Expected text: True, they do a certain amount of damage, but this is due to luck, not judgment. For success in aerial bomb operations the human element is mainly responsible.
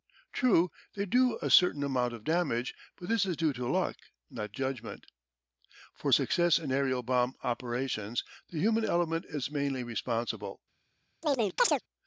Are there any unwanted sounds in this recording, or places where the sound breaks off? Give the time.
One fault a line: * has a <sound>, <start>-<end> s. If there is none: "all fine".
* has a chirp, 11.2-11.8 s